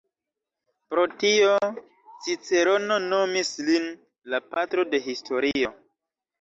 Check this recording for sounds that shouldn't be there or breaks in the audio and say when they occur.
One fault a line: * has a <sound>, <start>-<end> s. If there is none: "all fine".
all fine